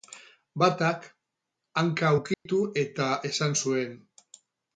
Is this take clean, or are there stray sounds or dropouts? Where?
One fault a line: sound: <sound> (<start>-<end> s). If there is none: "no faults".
sound: dropout (2.3-2.5 s)